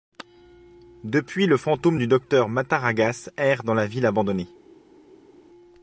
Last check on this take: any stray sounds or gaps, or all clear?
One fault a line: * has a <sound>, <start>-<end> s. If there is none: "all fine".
all fine